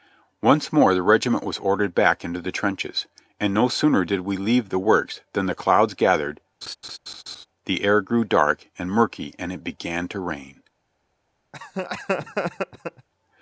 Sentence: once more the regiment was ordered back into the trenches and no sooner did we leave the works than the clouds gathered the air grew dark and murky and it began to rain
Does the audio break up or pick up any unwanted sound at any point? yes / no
yes